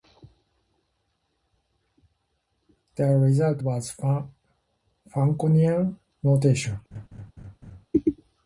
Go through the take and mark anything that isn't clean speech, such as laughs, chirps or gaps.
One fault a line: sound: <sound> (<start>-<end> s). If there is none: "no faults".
sound: laugh (6.9-7.9 s)